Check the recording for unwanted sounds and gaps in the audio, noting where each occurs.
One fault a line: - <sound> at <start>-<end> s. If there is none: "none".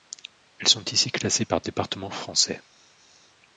none